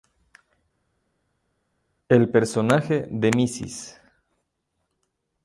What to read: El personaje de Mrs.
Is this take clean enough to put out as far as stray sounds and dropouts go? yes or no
yes